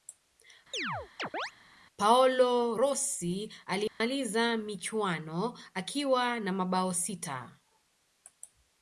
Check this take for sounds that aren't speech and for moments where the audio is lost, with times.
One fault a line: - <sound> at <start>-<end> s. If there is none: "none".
- chirp at 0.7-1.5 s
- dropout at 3.9-4.0 s